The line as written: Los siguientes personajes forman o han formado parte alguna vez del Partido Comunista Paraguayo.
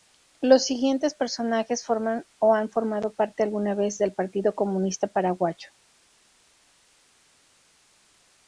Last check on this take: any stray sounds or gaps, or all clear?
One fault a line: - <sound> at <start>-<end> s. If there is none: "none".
none